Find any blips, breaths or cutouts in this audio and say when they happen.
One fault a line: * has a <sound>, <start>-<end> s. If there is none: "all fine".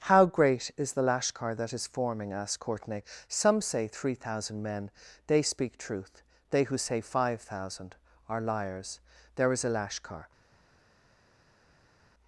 all fine